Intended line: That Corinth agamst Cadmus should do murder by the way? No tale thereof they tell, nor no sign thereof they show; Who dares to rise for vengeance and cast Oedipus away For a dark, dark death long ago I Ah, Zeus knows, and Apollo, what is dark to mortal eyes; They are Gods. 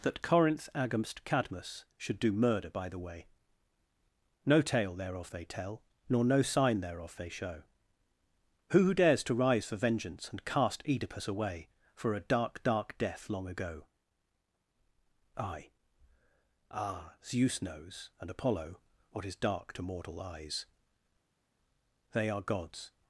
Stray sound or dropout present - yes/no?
no